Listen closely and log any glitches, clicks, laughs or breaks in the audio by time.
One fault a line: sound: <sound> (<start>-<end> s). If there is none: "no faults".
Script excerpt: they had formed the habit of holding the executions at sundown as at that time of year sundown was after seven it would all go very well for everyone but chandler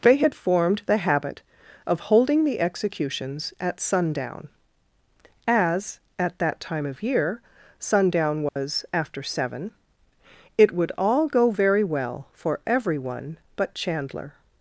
sound: dropout (8.5-8.6 s)